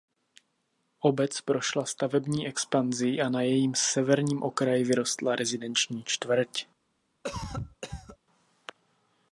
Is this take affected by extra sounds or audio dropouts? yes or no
yes